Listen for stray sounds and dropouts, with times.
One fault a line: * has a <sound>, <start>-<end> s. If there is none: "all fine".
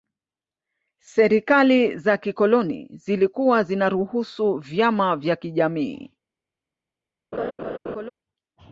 * has a laugh, 7.3-8.1 s